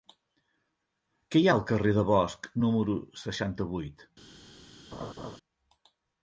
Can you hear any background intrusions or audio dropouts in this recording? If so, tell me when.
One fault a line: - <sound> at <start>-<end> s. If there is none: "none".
- laugh at 4.9-5.4 s